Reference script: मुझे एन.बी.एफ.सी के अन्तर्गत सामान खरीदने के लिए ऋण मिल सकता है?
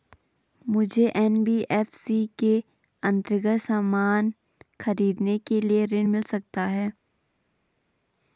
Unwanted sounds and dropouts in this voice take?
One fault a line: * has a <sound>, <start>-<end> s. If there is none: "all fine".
all fine